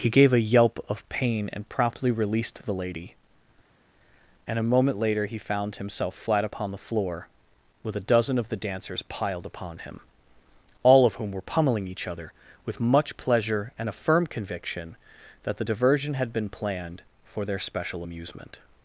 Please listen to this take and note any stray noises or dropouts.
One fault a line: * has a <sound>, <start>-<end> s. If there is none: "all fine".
all fine